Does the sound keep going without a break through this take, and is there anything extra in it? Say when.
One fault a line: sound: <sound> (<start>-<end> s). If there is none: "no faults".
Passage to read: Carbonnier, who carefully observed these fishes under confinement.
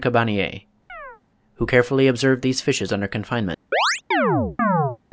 sound: chirp (0.9-1.2 s)
sound: chirp (3.7-5.0 s)